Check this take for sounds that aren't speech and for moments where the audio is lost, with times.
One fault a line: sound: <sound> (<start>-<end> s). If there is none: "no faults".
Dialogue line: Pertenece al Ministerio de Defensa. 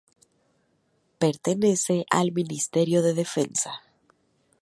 no faults